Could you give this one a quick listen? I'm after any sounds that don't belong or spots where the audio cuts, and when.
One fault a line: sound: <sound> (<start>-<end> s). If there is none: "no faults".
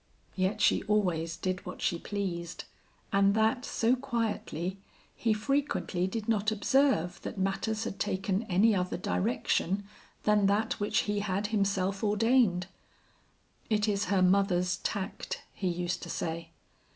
no faults